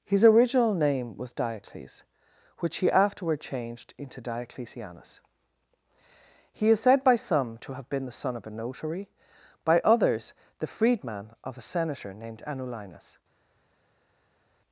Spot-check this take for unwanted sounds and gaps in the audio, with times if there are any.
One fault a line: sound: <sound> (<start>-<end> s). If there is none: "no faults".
no faults